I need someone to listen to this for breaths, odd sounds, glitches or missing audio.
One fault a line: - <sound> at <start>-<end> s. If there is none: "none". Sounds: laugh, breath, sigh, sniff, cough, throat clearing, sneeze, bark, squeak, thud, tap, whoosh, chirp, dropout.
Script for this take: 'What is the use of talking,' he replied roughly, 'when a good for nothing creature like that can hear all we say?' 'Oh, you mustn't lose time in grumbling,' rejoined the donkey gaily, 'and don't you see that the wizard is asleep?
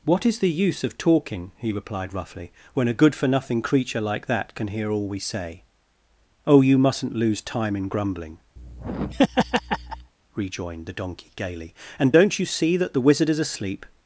- laugh at 8.6-10.1 s